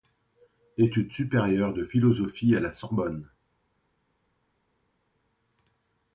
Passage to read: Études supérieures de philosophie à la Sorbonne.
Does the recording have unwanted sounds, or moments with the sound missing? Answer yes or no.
no